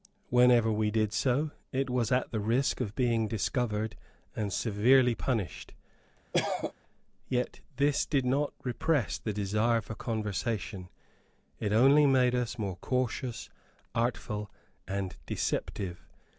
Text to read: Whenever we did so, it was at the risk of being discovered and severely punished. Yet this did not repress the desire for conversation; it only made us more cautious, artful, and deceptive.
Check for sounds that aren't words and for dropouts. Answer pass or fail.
fail